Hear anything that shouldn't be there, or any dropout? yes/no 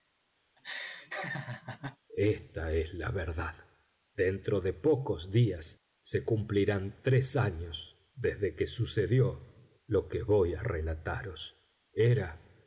yes